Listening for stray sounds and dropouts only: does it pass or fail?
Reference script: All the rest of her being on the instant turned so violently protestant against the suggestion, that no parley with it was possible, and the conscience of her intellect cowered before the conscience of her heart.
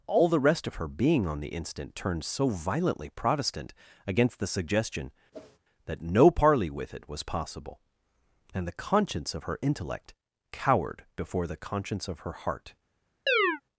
fail